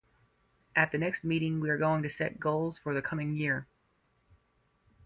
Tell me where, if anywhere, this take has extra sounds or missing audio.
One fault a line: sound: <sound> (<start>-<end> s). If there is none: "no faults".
no faults